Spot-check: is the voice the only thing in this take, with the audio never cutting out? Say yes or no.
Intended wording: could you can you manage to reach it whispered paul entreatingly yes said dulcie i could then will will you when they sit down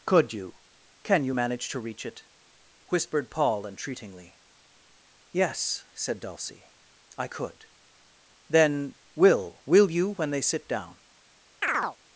no